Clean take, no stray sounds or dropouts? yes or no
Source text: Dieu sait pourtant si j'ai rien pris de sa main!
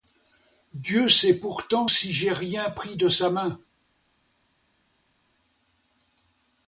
yes